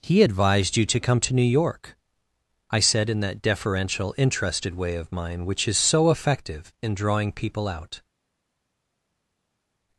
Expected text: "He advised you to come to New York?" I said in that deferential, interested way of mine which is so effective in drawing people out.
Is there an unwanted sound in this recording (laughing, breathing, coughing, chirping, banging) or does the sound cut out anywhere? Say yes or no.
no